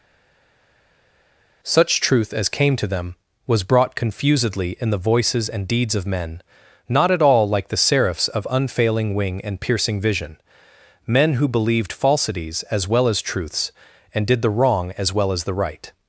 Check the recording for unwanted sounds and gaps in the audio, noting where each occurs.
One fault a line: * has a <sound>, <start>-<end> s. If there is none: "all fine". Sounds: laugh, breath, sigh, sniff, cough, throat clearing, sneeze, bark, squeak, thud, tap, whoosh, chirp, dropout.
all fine